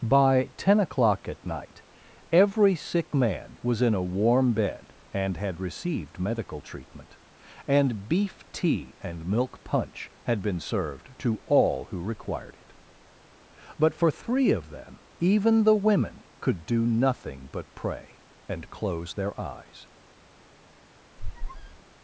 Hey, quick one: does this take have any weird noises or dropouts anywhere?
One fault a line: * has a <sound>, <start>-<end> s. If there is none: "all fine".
* has a squeak, 21.2-21.8 s